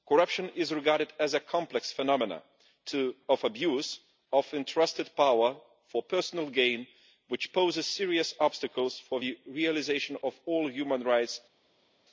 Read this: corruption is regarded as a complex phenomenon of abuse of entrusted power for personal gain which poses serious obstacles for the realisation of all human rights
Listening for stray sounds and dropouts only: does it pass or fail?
pass